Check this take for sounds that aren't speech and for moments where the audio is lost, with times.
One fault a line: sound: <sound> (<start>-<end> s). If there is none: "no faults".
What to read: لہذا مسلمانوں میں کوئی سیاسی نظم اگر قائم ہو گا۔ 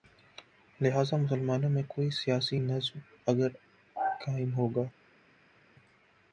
no faults